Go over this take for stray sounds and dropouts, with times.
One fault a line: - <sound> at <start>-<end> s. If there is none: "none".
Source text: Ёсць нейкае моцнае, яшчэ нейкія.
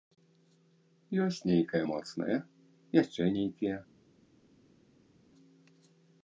none